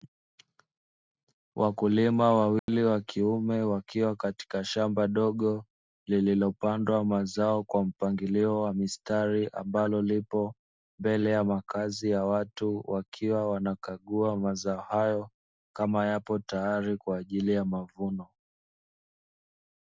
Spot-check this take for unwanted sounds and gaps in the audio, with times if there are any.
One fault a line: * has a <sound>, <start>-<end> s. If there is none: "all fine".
* has a dropout, 2.6-2.7 s